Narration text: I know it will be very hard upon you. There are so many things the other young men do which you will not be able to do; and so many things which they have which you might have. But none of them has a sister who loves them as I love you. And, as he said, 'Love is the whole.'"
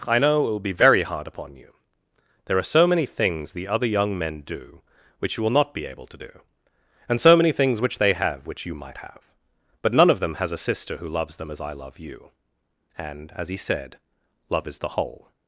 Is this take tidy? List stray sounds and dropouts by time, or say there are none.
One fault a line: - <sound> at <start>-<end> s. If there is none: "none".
none